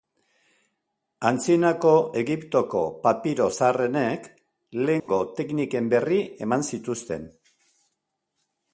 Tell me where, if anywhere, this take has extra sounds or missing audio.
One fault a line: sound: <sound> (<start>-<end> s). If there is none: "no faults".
sound: dropout (5.0-5.1 s)